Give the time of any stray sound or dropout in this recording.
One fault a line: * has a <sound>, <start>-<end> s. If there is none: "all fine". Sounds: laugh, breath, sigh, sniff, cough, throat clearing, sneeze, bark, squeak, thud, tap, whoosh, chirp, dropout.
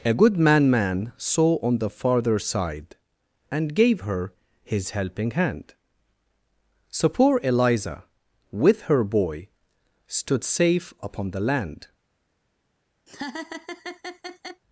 * has a laugh, 13.1-14.6 s